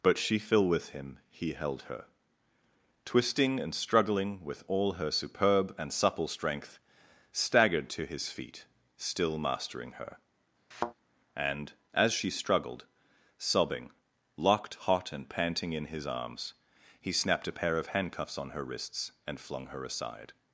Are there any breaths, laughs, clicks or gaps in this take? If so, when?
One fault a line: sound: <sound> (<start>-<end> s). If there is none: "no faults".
sound: thud (10.7-10.9 s)